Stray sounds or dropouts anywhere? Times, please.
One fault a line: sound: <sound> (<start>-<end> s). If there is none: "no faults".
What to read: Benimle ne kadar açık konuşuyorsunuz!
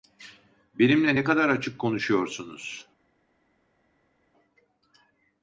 no faults